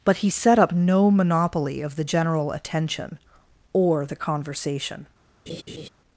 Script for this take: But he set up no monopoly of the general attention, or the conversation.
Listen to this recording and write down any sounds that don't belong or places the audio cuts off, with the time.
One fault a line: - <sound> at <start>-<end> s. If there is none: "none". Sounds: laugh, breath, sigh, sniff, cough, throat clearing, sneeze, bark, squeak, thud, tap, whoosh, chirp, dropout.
- laugh at 5.5-5.9 s